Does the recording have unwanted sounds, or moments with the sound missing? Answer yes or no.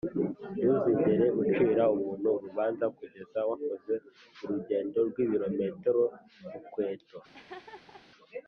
yes